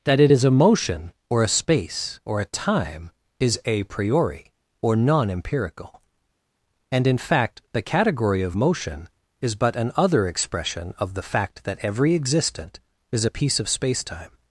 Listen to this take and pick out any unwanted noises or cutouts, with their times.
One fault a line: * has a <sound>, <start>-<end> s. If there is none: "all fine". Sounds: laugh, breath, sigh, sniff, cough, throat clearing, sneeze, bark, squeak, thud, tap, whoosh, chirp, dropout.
all fine